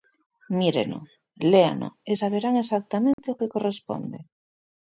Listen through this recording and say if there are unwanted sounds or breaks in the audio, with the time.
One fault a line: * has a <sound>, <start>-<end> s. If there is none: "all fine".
* has a dropout, 3.1-3.2 s